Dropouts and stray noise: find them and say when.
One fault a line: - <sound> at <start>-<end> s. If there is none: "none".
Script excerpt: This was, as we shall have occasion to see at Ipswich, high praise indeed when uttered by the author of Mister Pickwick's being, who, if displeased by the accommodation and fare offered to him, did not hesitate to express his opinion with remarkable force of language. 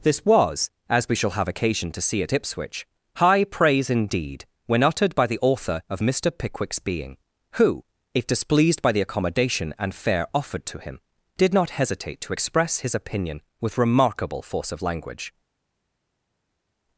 none